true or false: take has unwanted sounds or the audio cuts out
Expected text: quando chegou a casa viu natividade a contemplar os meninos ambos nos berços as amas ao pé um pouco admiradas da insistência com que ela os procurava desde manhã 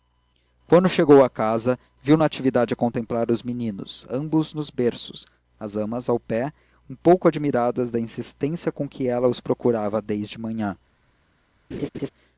true